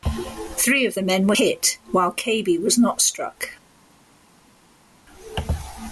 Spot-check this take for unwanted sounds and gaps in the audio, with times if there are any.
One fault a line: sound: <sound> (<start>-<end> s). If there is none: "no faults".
no faults